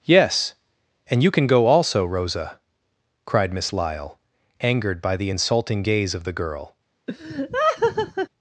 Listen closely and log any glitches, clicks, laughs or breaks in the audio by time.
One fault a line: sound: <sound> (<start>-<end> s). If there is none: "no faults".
sound: laugh (7.1-8.3 s)